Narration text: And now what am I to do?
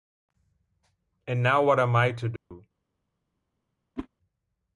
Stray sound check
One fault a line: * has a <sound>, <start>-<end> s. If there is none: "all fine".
* has a dropout, 2.4-2.5 s
* has a whoosh, 4.0-4.1 s